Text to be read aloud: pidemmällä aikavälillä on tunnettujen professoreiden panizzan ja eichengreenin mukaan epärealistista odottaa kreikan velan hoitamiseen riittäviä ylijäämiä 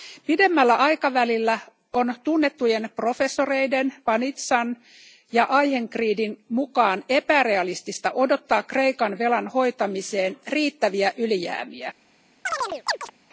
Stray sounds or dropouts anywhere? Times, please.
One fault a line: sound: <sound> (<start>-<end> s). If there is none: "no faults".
sound: chirp (12.5-13.1 s)